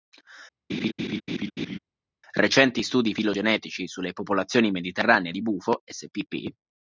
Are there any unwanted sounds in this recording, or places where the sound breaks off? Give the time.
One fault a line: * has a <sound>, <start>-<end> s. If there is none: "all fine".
* has a laugh, 0.7-1.8 s